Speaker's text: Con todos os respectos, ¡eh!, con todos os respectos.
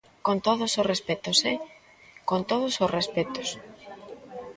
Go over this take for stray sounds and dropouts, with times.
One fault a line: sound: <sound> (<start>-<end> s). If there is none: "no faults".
no faults